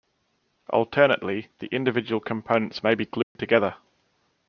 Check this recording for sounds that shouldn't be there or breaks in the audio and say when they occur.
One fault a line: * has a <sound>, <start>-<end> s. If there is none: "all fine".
* has a dropout, 3.2-3.4 s